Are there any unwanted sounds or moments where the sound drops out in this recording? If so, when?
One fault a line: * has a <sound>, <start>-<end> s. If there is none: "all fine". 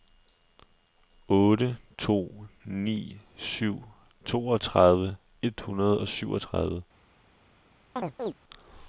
* has a chirp, 8.0-8.3 s